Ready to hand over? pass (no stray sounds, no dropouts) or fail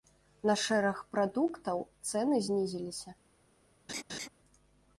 fail